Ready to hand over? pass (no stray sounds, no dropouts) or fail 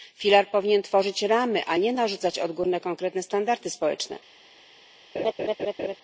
fail